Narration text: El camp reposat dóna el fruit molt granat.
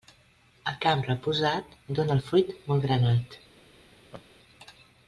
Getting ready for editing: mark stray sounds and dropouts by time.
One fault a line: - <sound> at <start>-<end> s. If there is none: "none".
- laugh at 4.1-4.2 s